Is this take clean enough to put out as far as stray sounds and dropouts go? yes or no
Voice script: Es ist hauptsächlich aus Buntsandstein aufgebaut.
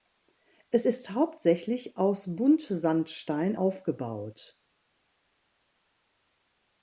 yes